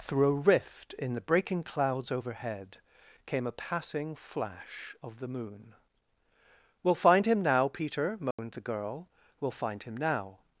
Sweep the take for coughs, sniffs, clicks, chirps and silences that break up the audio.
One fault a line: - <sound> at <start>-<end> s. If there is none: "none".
- dropout at 8.3-8.4 s